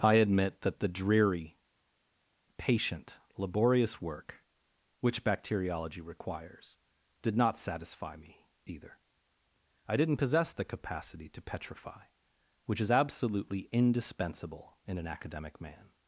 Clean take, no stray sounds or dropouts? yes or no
yes